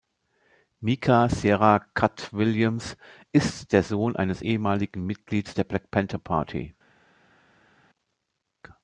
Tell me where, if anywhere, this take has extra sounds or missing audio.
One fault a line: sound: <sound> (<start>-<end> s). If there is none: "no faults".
no faults